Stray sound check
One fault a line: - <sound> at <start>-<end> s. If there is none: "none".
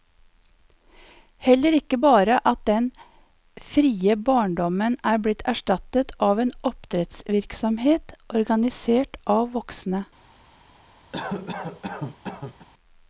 - cough at 11.1-12.7 s